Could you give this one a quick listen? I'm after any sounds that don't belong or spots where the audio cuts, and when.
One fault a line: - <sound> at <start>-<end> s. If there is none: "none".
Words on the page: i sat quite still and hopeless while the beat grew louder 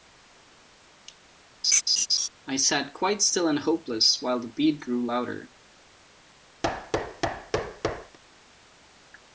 - laugh at 1.6-2.3 s
- thud at 6.6-8.2 s